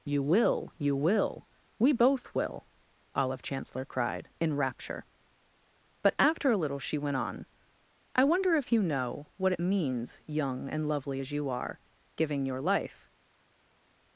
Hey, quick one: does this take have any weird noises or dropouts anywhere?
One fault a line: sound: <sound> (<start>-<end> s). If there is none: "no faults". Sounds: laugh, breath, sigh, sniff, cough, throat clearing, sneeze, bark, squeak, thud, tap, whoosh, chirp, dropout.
no faults